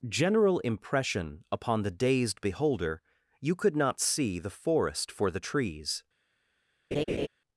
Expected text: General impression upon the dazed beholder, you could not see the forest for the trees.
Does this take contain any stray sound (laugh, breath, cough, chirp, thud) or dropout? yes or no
yes